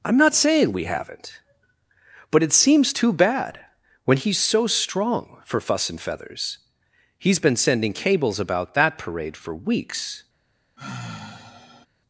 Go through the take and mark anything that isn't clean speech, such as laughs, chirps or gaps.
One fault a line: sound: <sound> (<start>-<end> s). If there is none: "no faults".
sound: sigh (10.8-11.9 s)